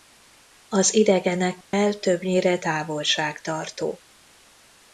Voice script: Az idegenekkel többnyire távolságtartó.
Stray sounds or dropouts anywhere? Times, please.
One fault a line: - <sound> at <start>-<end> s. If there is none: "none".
- dropout at 1.6-1.7 s